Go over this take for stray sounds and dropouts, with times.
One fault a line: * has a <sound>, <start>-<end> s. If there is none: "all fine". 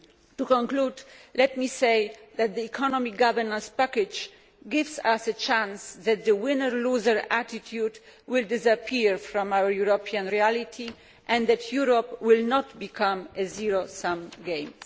all fine